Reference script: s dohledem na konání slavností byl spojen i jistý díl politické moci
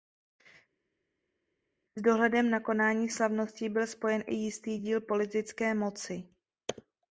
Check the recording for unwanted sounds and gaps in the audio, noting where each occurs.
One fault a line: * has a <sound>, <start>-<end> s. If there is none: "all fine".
all fine